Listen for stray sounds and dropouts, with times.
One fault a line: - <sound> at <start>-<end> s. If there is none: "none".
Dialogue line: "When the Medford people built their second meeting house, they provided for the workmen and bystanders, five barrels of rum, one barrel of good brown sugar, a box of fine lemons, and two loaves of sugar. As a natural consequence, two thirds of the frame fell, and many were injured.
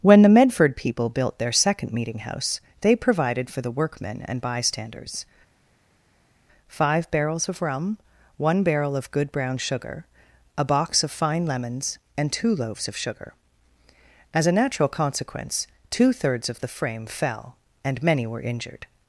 none